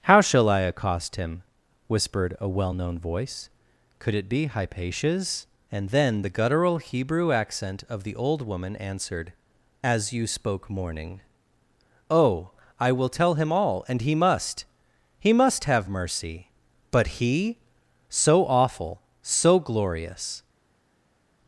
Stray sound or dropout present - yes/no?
no